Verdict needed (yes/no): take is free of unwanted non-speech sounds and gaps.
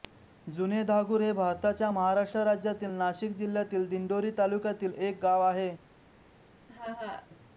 no